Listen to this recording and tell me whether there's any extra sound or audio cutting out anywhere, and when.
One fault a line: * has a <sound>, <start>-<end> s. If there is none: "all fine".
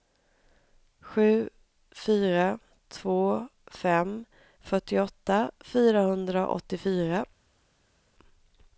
all fine